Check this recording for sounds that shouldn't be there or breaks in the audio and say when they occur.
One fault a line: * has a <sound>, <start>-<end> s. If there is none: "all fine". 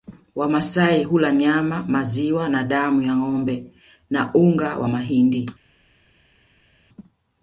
all fine